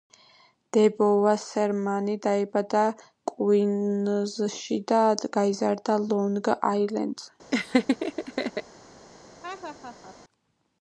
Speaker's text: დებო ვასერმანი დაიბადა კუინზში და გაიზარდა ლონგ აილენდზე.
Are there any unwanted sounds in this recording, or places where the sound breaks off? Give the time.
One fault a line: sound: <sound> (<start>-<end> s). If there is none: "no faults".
sound: laugh (7.5-8.6 s)
sound: laugh (9.4-10.2 s)